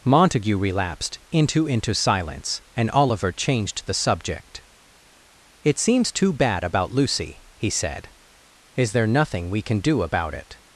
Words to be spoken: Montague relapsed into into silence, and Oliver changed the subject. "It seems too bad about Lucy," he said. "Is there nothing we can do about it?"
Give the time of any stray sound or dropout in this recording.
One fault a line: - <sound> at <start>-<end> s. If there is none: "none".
none